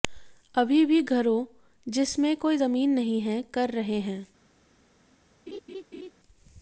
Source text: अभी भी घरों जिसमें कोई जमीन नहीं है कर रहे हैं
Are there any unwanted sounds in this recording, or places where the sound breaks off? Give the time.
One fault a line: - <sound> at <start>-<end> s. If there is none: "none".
- laugh at 5.5-6.1 s